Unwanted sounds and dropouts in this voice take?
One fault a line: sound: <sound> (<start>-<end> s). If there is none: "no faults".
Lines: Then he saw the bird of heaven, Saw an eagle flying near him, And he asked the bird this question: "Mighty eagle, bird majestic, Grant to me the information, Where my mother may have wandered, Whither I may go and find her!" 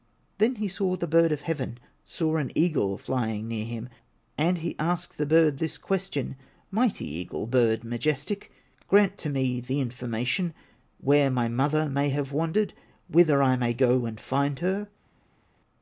no faults